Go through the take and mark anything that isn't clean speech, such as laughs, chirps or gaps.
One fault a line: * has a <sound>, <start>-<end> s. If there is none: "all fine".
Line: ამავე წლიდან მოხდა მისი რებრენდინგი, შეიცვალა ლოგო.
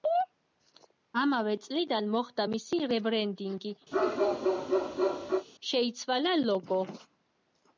* has a bark, 3.9-5.5 s